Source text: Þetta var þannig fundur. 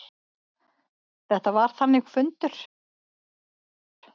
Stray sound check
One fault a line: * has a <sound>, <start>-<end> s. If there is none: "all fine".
all fine